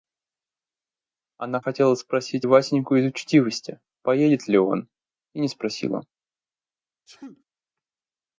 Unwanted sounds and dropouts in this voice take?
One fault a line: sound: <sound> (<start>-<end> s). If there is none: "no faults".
sound: sneeze (7.1-7.4 s)